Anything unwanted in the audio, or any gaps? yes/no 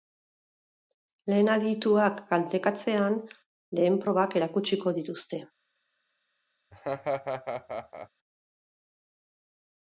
yes